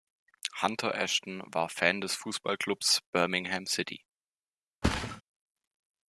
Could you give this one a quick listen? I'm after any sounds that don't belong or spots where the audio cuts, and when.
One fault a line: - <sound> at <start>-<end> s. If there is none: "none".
- thud at 4.8-5.2 s